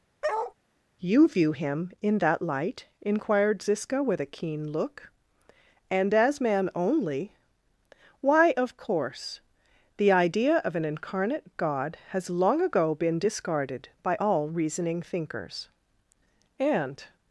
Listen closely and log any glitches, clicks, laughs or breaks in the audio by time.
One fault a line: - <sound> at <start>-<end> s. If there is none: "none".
- bark at 0.2-0.5 s